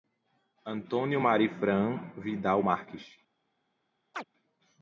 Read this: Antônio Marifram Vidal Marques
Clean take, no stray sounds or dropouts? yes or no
no